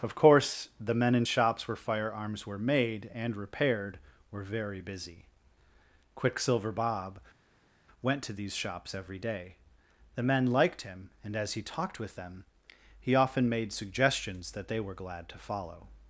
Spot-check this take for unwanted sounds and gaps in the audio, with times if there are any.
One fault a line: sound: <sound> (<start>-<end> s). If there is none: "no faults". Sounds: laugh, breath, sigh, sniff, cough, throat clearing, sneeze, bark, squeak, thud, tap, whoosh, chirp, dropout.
no faults